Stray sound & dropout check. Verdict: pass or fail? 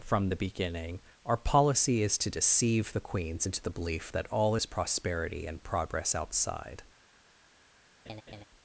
fail